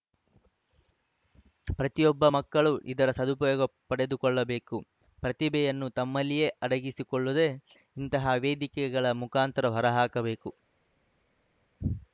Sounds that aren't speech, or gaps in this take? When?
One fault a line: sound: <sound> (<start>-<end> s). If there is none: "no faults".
no faults